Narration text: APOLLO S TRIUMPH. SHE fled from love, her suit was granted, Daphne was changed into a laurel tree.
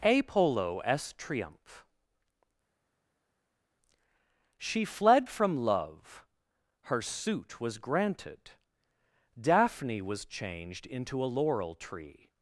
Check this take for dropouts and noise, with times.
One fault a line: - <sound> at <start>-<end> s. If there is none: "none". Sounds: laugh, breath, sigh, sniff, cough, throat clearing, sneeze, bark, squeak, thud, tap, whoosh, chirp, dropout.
none